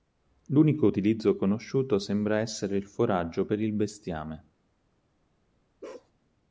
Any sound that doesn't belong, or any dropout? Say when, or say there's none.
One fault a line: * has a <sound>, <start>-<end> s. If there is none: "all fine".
* has a bark, 5.8-6.1 s